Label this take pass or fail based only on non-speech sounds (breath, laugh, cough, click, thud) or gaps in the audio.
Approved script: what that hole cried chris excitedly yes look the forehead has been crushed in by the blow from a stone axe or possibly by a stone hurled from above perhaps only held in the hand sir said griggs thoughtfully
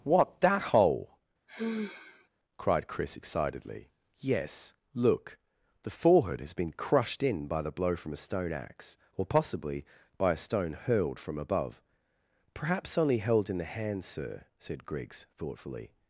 fail